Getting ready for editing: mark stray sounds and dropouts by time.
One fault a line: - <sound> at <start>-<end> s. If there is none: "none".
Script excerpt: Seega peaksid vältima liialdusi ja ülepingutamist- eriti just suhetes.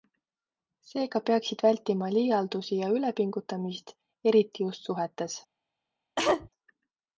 - cough at 6.2-6.5 s